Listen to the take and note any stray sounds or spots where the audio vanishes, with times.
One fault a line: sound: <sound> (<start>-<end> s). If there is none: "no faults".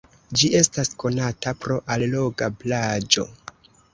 no faults